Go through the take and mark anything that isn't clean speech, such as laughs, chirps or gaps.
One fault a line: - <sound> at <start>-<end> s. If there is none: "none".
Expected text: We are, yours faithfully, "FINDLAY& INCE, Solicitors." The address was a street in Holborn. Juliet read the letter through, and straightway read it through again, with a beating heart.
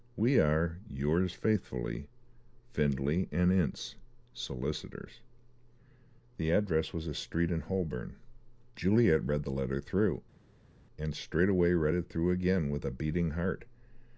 none